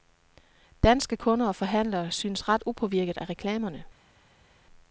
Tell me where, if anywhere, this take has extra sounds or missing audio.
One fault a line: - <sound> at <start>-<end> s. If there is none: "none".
none